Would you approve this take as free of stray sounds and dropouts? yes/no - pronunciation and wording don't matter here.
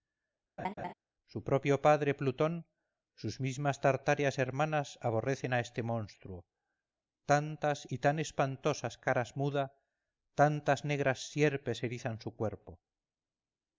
no